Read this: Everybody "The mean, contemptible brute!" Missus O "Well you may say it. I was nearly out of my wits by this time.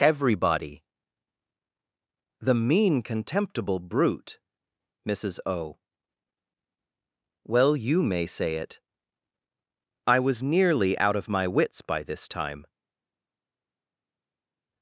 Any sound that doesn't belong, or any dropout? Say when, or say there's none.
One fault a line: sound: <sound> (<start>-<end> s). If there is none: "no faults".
no faults